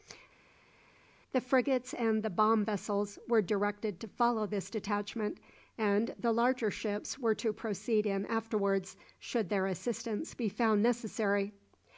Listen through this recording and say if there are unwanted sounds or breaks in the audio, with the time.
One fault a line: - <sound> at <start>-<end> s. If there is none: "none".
none